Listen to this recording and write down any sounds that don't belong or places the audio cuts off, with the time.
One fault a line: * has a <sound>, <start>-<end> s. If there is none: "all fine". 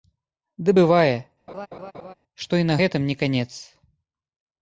* has a laugh, 1.5-2.1 s